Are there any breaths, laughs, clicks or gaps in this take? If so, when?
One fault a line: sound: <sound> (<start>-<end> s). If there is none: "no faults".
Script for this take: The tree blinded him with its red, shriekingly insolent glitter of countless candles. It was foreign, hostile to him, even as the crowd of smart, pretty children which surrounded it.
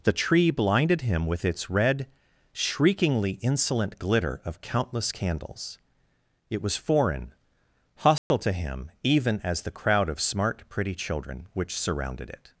sound: dropout (8.2-8.3 s)